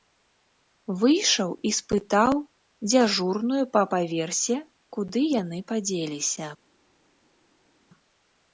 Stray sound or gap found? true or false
false